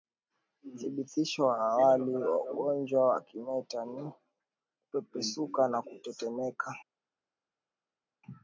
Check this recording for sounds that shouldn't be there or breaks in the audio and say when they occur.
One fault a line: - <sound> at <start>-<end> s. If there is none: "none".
none